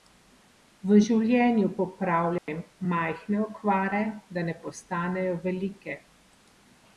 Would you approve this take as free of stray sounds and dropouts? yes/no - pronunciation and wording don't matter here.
no